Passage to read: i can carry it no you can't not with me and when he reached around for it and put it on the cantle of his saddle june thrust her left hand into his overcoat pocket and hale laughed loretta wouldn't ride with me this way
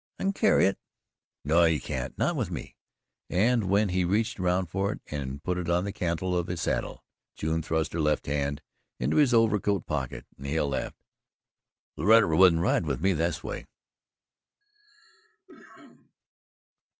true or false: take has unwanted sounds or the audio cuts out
true